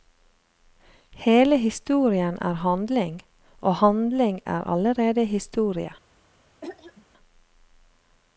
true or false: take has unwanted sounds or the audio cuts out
true